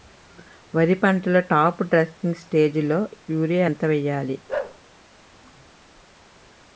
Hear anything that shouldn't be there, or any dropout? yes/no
yes